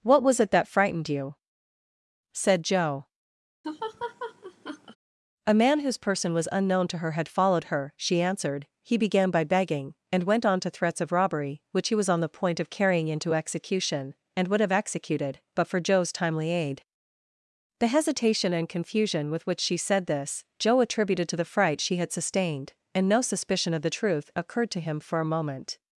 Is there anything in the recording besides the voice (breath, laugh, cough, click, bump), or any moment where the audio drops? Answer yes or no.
yes